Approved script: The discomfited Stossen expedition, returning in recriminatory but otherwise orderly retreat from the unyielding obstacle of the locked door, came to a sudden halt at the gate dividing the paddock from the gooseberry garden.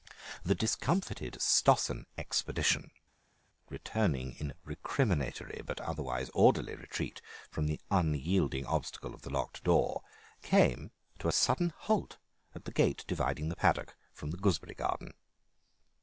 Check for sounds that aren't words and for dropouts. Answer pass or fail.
pass